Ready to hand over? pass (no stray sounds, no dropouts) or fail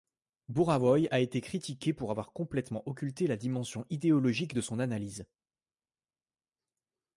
pass